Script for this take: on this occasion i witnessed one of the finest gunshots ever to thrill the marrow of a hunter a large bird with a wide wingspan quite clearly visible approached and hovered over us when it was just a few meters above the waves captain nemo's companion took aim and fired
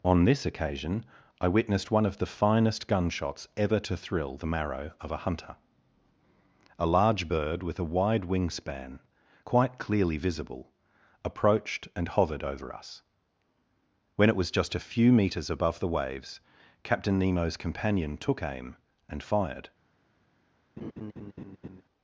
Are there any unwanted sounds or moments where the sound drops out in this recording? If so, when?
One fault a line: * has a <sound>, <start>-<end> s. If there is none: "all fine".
* has a laugh, 20.8-21.8 s